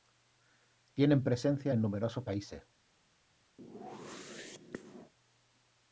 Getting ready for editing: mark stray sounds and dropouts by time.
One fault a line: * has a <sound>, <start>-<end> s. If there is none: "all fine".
* has a whoosh, 3.6-5.1 s